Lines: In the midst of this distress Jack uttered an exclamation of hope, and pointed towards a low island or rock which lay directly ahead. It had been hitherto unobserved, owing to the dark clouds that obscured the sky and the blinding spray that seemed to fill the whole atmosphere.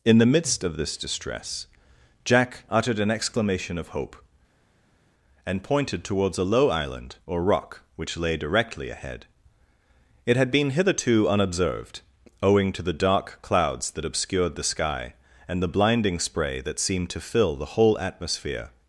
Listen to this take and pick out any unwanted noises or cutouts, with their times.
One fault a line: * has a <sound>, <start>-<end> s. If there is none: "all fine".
all fine